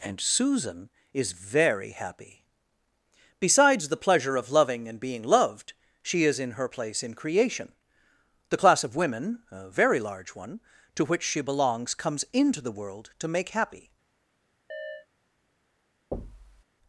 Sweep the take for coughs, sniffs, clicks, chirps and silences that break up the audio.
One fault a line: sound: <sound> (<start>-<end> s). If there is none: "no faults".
sound: chirp (14.7-15.1 s)
sound: thud (16.1-16.6 s)